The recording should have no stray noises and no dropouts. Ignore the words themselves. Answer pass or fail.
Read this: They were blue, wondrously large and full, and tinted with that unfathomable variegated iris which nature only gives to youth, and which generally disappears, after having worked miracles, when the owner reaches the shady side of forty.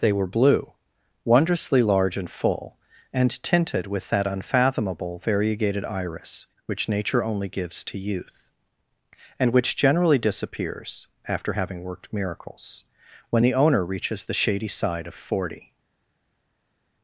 pass